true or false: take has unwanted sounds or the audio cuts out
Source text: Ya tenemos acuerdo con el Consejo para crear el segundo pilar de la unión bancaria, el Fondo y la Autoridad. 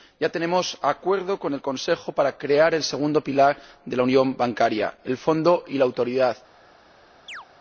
true